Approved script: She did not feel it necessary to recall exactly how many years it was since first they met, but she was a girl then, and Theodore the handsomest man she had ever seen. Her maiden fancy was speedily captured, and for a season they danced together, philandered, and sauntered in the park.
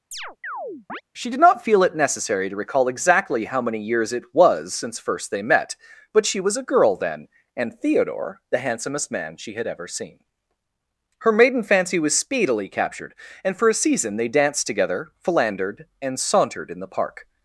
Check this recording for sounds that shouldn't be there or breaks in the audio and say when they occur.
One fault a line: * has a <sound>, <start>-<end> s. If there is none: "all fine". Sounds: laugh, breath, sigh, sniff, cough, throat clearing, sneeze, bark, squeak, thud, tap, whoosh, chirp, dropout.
* has a chirp, 0.1-1.0 s